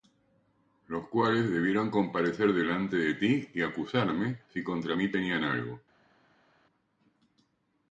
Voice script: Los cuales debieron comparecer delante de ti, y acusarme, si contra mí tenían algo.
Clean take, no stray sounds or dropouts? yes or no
yes